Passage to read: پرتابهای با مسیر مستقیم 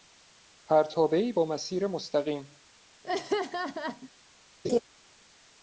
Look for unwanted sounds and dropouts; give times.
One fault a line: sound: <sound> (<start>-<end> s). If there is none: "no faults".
sound: laugh (3.0-4.1 s)
sound: laugh (4.6-4.8 s)